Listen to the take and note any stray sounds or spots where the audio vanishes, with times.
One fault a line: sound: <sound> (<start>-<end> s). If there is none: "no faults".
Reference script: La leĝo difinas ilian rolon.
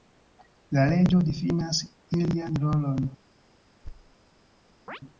sound: thud (3.8-4.2 s)
sound: chirp (4.9-5.0 s)